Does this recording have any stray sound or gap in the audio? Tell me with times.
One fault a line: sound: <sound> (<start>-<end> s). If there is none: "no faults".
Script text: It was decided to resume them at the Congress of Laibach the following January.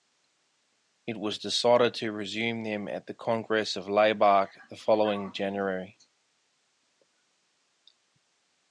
no faults